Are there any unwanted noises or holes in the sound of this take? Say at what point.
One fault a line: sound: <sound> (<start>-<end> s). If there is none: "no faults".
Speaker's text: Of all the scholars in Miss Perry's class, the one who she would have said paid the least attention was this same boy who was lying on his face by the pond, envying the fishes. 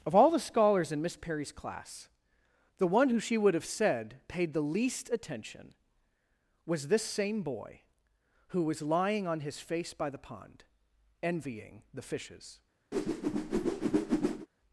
sound: whoosh (12.9-14.5 s)